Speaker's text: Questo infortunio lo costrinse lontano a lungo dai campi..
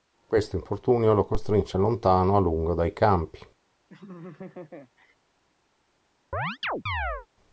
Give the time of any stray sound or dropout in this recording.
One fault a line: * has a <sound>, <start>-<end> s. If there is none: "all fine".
* has a laugh, 3.9-5.2 s
* has a chirp, 6.3-7.3 s